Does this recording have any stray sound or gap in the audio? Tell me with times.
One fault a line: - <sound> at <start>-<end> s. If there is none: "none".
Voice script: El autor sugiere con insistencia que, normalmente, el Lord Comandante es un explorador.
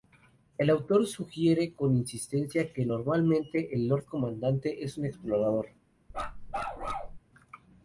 - bark at 6.1-7.2 s